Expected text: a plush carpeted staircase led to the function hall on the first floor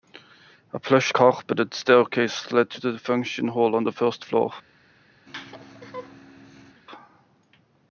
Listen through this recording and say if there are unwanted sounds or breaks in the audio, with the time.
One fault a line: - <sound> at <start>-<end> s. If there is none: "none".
- laugh at 5.3-6.8 s